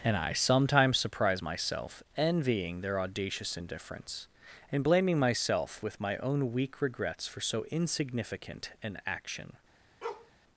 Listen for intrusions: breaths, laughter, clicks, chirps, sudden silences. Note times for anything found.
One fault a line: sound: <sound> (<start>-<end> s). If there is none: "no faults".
sound: bark (10.0-10.3 s)